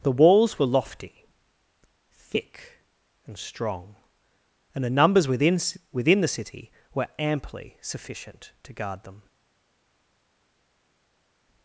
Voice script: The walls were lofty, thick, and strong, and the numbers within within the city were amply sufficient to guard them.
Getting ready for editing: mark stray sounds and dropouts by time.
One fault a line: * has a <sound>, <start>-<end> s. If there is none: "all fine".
all fine